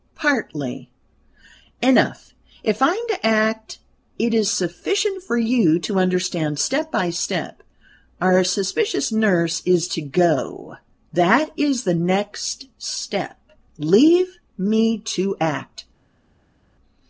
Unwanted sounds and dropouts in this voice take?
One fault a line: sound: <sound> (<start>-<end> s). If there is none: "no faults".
no faults